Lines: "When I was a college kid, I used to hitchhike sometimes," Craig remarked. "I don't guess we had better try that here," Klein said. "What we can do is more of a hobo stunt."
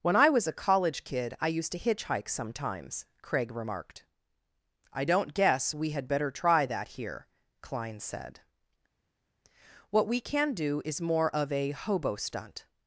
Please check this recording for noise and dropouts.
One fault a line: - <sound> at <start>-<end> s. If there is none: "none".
none